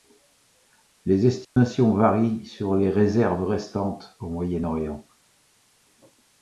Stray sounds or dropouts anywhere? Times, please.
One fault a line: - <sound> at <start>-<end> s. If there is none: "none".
- dropout at 1.4-1.6 s